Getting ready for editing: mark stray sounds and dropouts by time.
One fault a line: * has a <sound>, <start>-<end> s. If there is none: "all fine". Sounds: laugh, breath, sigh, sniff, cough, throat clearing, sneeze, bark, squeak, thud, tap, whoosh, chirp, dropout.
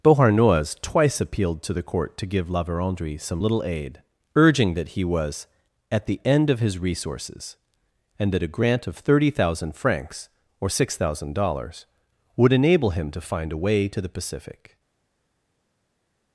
all fine